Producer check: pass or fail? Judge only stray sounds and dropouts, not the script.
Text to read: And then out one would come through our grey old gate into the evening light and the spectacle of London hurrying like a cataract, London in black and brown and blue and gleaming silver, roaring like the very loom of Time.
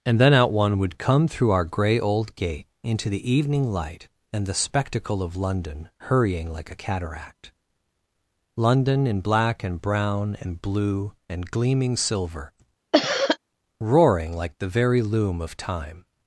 fail